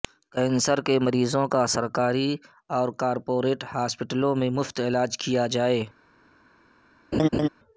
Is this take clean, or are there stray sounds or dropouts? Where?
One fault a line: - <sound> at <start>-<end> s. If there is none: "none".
- laugh at 7.1-7.5 s